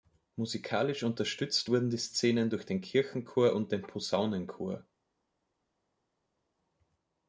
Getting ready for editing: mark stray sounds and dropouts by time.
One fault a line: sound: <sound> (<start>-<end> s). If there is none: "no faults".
no faults